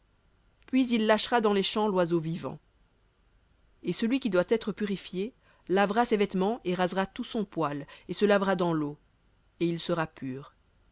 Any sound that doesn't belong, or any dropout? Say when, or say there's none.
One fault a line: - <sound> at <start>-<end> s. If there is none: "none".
none